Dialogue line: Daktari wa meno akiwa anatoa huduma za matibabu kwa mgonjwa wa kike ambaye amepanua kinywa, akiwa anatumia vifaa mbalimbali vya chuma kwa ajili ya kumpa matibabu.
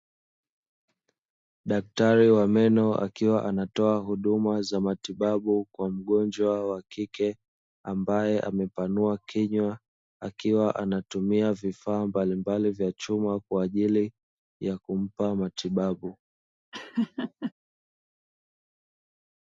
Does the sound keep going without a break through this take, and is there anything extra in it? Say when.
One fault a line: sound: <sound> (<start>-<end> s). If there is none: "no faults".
sound: laugh (16.7-17.5 s)